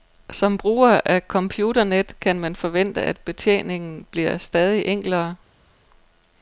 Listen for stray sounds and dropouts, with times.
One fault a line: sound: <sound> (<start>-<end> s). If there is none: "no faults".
no faults